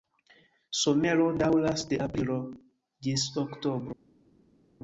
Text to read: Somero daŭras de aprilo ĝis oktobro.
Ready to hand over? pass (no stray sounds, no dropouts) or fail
pass